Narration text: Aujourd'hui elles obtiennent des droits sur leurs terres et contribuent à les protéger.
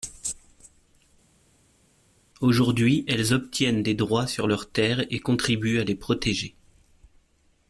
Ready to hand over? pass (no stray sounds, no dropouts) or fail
pass